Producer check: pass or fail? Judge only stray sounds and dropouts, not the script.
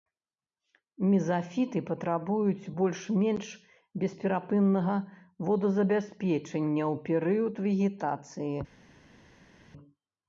pass